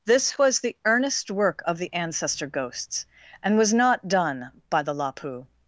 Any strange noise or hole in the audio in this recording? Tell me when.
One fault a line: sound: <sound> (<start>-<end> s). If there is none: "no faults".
no faults